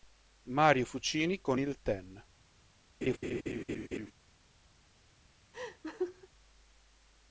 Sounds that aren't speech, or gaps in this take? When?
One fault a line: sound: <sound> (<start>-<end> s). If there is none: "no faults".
sound: laugh (3.0-4.1 s)
sound: laugh (5.5-6.3 s)